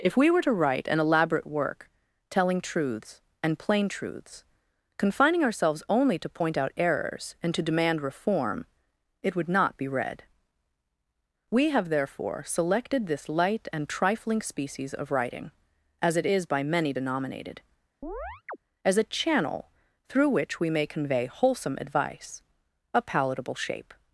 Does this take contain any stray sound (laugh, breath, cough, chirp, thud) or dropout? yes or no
yes